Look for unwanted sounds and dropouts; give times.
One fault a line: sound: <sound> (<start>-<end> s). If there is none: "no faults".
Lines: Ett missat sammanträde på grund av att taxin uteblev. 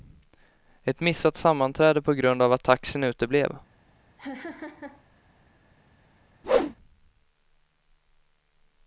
sound: laugh (4.2-5.0 s)
sound: whoosh (6.4-6.8 s)